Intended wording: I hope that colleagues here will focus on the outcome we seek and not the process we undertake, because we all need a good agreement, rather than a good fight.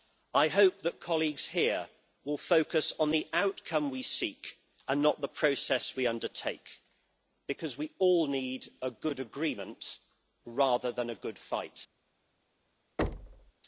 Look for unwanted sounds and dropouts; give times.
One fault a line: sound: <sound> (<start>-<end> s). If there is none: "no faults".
sound: thud (13.0-13.5 s)